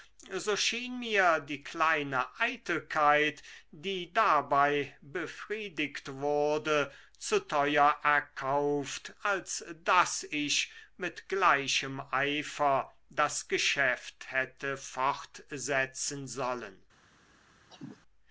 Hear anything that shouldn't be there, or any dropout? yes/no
yes